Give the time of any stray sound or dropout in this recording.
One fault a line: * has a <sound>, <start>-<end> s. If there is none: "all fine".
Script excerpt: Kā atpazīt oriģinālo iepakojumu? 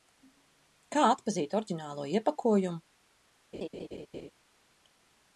* has a laugh, 3.5-4.3 s